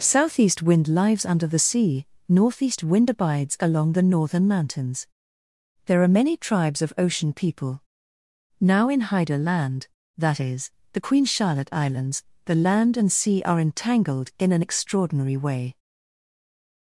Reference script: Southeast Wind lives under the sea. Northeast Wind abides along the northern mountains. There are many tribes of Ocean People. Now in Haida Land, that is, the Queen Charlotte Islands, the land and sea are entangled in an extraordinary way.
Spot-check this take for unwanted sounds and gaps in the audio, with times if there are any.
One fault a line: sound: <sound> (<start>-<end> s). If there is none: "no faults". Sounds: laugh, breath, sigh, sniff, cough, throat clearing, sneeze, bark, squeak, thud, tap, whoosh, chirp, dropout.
no faults